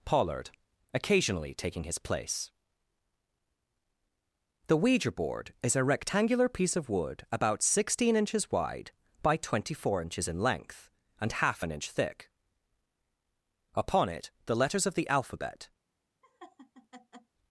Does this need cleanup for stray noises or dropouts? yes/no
yes